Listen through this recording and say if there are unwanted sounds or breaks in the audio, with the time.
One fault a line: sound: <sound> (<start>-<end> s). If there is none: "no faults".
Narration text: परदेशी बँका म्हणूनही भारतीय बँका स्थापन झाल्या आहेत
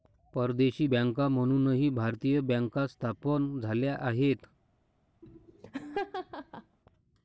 sound: laugh (5.2-6.8 s)